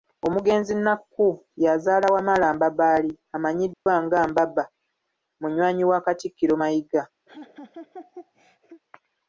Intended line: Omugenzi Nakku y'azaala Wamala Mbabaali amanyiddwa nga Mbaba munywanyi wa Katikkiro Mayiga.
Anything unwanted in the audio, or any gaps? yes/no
yes